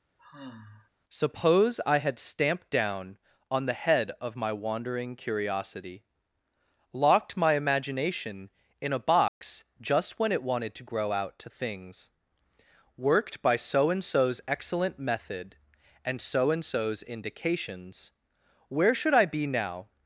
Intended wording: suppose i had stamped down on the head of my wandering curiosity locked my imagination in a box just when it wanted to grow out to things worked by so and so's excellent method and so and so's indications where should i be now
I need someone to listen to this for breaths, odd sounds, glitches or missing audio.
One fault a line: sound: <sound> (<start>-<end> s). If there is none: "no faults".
sound: sigh (0.2-0.9 s)
sound: dropout (9.3-9.4 s)